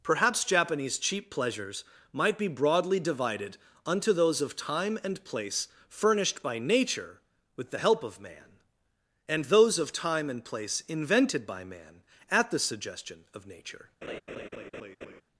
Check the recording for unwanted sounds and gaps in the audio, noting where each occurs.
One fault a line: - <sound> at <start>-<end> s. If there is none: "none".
- laugh at 14.0-15.2 s